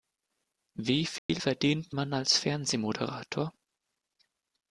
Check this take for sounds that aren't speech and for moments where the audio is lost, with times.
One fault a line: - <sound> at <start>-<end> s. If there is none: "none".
- dropout at 1.2-1.3 s